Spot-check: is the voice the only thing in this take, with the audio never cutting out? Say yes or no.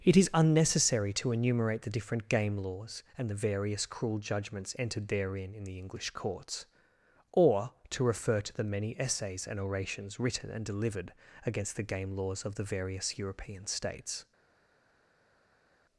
yes